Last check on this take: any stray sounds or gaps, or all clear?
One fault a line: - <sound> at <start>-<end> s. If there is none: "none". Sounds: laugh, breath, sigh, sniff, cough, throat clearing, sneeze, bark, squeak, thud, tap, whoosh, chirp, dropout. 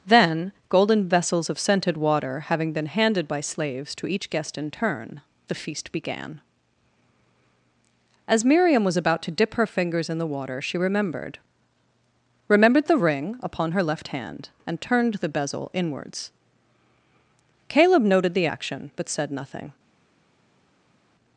none